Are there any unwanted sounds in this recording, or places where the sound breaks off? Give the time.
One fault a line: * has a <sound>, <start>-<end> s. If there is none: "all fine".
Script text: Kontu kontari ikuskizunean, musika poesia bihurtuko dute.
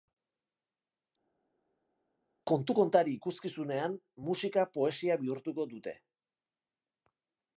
all fine